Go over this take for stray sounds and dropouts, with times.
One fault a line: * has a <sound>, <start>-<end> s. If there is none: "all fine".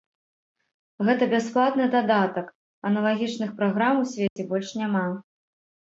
* has a dropout, 4.3-4.4 s